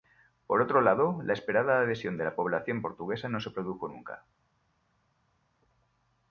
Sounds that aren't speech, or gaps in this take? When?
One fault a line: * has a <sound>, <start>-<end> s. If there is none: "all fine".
all fine